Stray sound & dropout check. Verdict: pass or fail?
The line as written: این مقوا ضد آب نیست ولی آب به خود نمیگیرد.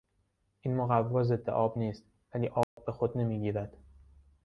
fail